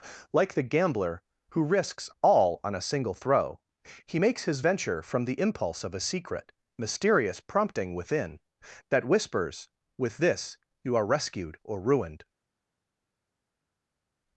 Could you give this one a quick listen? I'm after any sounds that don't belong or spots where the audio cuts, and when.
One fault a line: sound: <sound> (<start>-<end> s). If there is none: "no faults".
no faults